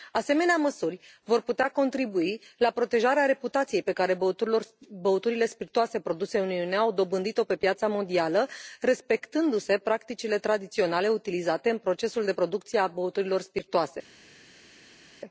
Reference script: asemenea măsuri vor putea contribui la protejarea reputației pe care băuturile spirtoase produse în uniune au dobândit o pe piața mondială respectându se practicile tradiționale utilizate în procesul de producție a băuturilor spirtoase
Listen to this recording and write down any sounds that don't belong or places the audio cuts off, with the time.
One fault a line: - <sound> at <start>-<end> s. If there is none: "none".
none